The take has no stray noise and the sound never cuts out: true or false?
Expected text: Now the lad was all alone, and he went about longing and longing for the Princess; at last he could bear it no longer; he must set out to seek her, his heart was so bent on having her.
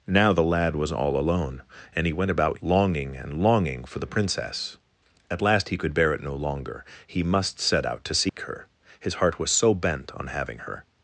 false